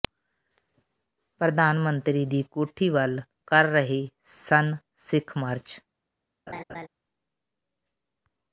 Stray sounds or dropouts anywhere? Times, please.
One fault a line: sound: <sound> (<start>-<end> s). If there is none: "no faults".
sound: laugh (6.5-6.9 s)